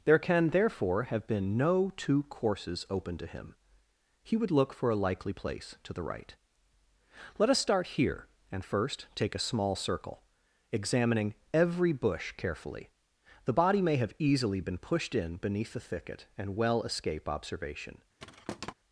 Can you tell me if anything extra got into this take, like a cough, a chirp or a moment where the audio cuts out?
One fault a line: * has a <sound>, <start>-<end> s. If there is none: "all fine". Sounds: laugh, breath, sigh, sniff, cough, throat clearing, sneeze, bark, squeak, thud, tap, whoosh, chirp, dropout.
* has a thud, 18.2-18.7 s